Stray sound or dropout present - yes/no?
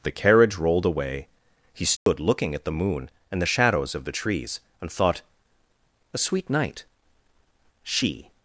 yes